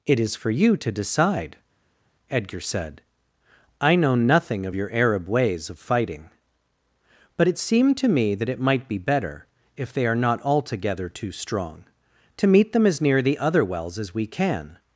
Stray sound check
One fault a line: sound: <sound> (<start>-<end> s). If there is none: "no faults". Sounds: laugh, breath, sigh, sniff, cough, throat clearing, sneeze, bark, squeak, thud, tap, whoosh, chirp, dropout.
no faults